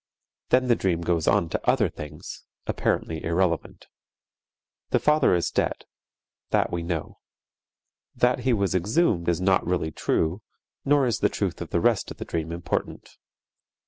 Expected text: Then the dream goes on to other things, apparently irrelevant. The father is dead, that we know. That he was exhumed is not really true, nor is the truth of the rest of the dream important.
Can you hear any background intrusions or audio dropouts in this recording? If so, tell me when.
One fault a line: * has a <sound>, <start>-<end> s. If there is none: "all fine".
all fine